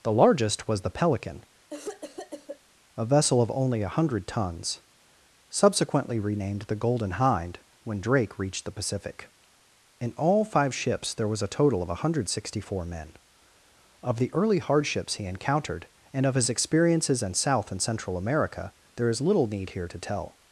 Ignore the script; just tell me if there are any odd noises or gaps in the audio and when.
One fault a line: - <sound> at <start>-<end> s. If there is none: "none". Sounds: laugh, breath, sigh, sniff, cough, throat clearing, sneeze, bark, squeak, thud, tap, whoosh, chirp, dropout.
- cough at 1.7-2.6 s